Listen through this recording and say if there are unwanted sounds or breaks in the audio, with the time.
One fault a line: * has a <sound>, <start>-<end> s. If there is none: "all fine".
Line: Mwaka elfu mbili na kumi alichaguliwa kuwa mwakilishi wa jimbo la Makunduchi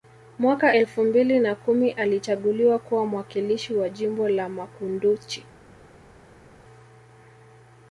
all fine